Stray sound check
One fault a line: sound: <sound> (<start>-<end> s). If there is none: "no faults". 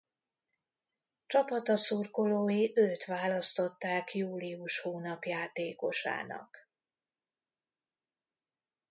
no faults